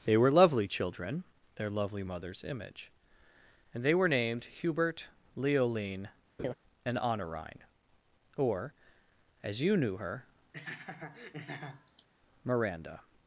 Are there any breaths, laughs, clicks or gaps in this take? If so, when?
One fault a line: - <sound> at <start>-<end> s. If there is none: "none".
- laugh at 6.4-6.5 s
- laugh at 10.5-12.1 s